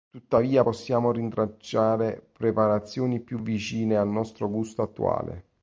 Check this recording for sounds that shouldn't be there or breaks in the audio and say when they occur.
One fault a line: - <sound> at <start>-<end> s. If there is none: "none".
none